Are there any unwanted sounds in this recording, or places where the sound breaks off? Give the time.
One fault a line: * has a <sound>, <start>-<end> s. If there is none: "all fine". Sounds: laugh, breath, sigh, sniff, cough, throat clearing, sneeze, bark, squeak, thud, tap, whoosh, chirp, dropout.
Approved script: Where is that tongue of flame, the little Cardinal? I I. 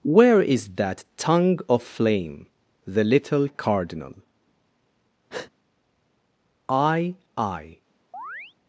* has a breath, 5.3-5.5 s
* has a chirp, 8.1-8.5 s